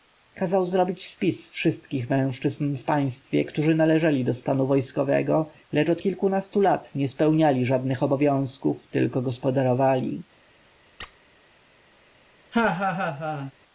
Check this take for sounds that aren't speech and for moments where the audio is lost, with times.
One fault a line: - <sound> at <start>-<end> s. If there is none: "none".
- squeak at 11.0-11.2 s
- laugh at 12.5-13.5 s